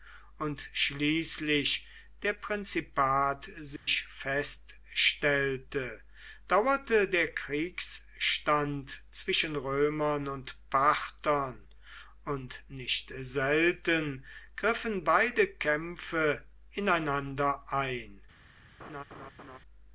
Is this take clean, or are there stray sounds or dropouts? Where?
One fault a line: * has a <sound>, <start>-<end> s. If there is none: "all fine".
* has a dropout, 3.8-3.9 s
* has a laugh, 18.8-19.6 s